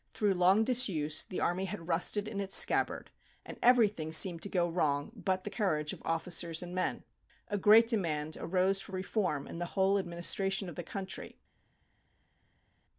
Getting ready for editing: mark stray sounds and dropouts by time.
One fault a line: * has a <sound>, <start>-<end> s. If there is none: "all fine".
all fine